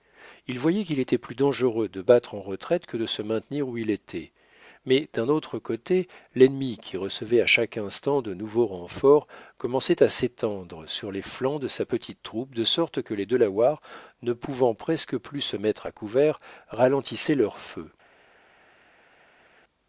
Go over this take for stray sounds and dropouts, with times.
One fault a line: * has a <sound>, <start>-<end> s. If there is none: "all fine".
all fine